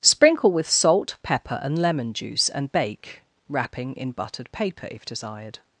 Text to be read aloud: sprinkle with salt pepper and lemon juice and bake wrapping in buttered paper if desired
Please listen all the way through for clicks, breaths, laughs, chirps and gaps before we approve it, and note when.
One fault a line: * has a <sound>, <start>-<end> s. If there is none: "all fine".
all fine